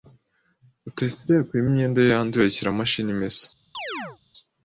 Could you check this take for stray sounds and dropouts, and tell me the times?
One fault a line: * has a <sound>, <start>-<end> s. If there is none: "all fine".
* has a chirp, 3.7-4.2 s